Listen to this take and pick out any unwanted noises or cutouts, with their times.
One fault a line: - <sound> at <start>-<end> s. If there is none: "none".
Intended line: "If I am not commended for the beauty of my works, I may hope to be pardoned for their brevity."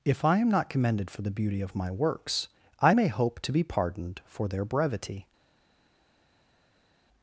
none